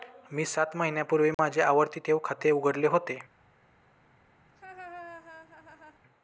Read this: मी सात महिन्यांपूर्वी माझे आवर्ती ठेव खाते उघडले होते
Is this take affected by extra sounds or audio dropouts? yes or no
yes